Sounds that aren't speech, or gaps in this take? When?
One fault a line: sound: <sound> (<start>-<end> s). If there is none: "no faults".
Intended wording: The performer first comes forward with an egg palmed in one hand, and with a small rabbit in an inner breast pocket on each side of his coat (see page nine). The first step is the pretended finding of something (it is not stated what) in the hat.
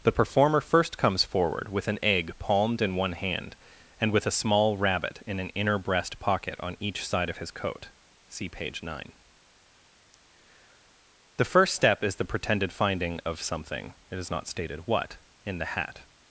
no faults